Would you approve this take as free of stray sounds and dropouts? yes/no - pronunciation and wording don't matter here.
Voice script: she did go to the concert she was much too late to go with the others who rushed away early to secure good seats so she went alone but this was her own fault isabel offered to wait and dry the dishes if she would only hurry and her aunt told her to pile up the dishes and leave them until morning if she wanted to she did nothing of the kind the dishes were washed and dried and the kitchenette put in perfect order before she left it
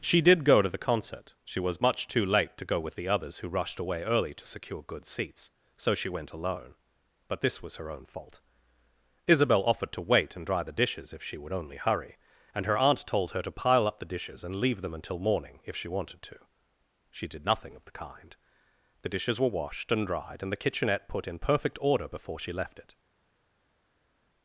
yes